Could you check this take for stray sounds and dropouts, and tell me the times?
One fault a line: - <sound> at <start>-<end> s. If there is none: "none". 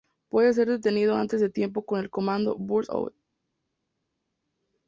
none